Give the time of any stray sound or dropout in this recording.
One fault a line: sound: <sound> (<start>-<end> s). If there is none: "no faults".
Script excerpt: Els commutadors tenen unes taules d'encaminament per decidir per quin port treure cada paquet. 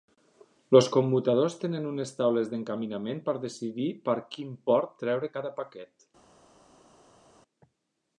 no faults